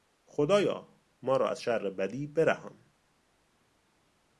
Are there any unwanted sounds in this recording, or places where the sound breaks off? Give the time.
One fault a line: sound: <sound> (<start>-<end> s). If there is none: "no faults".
no faults